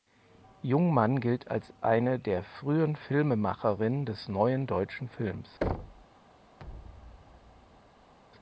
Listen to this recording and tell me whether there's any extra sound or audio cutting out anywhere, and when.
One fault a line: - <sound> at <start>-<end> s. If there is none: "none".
- thud at 5.6-6.1 s
- thud at 6.6-8.1 s